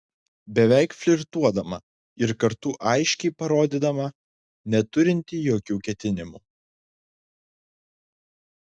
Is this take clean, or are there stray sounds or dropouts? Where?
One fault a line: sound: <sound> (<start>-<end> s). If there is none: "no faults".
no faults